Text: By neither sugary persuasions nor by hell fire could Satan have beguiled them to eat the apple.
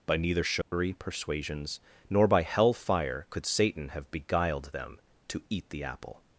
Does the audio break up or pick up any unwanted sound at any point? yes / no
yes